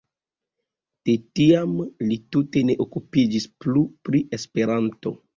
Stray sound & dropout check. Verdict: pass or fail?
pass